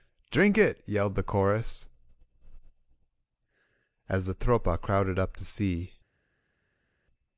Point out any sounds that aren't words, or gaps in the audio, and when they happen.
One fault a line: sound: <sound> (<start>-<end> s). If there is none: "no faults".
no faults